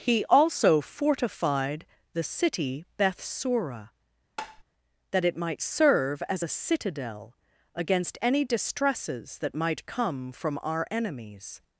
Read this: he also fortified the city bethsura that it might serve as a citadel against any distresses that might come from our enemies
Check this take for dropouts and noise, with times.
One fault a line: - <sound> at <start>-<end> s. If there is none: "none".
- tap at 4.4-4.6 s